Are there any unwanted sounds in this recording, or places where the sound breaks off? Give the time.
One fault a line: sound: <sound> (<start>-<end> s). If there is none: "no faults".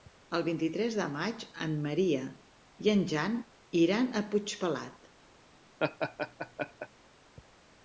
sound: laugh (5.8-6.9 s)